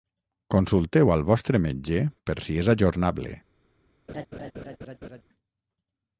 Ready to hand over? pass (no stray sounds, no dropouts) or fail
fail